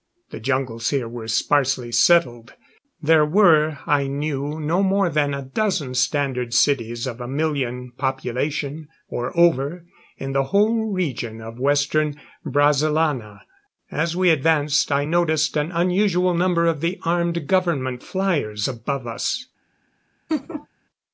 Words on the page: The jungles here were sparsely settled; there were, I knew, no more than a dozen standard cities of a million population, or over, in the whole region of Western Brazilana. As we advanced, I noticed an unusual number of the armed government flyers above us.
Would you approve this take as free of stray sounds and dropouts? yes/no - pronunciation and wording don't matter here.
no